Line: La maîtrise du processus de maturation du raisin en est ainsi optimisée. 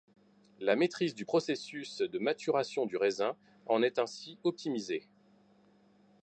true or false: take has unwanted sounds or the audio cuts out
false